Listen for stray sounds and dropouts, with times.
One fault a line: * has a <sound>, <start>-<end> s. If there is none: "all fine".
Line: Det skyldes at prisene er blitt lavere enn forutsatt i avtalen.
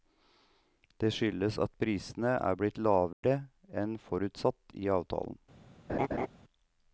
* has a dropout, 3.1-3.2 s
* has a laugh, 5.9-6.3 s